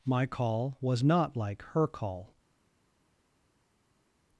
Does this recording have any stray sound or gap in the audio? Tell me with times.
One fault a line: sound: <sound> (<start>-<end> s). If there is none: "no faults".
no faults